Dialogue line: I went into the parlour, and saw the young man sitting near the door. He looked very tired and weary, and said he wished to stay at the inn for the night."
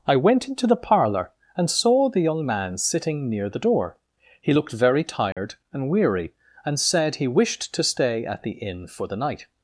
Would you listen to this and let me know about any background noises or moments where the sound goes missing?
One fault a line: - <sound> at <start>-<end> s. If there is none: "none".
- dropout at 5.3-5.4 s